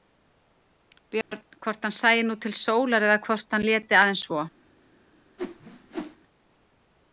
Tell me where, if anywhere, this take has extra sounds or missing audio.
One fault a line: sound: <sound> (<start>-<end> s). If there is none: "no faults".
sound: dropout (1.2-1.3 s)
sound: whoosh (5.4-6.2 s)